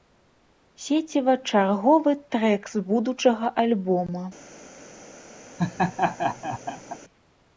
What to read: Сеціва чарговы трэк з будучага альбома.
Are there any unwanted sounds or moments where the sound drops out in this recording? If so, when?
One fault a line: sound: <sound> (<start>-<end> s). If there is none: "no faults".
sound: laugh (5.6-7.0 s)